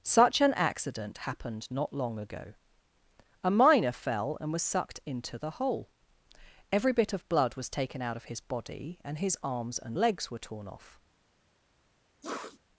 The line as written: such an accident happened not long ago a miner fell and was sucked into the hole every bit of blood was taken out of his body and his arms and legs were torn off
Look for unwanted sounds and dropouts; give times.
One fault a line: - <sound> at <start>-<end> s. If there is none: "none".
- sniff at 12.2-12.6 s